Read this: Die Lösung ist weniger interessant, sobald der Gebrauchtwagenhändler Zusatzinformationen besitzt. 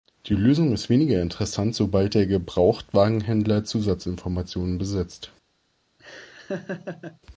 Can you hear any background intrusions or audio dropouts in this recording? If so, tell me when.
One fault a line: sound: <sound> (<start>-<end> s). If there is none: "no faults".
sound: laugh (6.0-7.2 s)